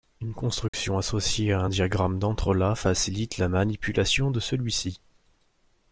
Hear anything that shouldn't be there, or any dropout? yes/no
yes